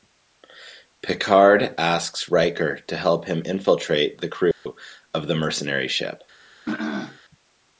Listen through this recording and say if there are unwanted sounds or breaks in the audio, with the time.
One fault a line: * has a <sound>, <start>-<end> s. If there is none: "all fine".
* has a dropout, 4.5-4.7 s
* has a throat clearing, 6.7-7.2 s